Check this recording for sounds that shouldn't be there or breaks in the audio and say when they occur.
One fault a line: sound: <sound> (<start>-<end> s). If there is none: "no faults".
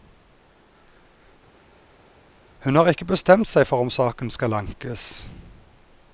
no faults